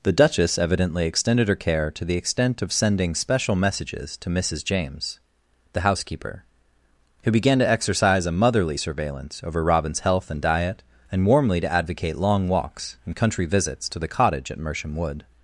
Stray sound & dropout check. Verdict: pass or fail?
pass